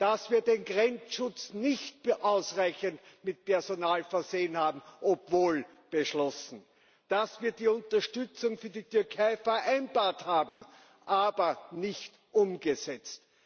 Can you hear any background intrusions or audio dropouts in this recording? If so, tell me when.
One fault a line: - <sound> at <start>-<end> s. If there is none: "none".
- dropout at 10.5-10.6 s